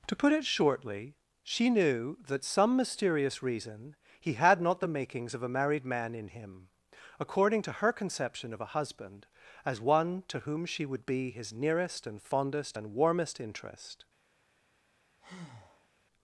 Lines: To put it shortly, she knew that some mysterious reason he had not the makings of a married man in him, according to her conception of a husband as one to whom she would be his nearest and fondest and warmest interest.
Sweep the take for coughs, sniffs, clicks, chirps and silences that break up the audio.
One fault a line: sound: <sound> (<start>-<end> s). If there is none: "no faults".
sound: breath (15.2-15.9 s)